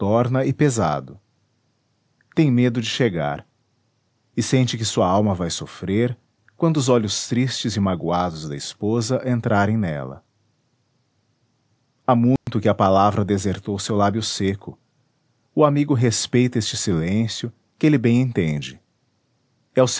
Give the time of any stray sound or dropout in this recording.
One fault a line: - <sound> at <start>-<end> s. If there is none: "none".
- dropout at 12.4-12.5 s